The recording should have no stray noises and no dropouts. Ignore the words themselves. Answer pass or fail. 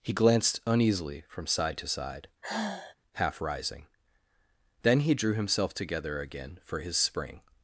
fail